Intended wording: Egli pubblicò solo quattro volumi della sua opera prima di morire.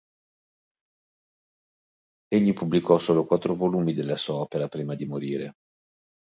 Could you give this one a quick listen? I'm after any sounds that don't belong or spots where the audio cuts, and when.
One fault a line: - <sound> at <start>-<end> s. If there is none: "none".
none